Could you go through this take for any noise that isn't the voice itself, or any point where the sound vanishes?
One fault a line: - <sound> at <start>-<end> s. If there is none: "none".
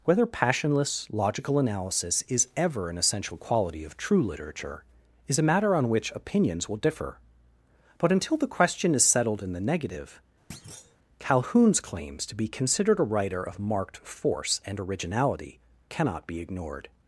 - thud at 10.5-11.0 s